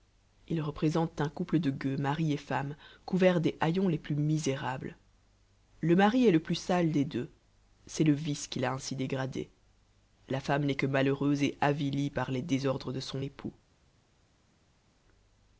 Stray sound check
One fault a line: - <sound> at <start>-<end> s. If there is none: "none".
none